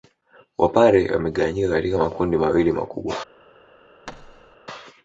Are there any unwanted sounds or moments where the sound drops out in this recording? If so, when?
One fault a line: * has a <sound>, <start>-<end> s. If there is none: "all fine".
* has a thud, 4.1-4.6 s